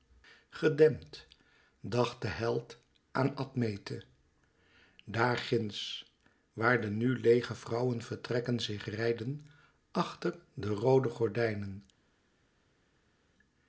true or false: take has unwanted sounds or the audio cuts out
false